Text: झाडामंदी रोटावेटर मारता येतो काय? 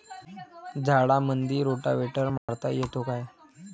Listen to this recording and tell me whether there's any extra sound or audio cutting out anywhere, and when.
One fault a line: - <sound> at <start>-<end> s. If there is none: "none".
- dropout at 2.4-2.5 s